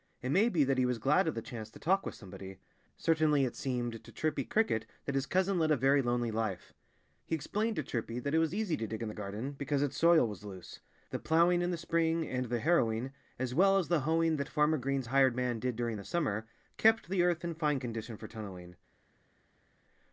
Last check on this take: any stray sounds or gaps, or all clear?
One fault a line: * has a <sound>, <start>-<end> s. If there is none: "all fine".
all fine